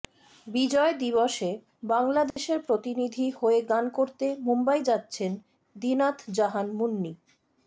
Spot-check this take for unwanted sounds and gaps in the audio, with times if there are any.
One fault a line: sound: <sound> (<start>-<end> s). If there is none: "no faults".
sound: dropout (2.3-2.4 s)